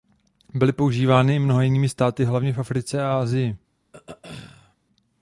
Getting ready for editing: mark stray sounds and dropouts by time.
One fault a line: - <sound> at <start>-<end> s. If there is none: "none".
- throat clearing at 3.9-4.8 s